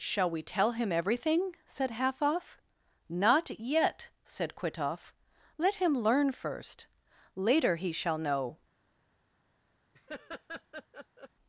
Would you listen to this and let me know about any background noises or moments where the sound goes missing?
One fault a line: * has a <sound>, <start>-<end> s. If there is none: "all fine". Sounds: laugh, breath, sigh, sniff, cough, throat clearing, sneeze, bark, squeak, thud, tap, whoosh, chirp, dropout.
* has a laugh, 9.9-11.3 s